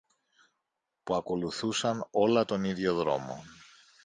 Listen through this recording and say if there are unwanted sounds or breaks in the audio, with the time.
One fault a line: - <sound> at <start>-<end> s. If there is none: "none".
none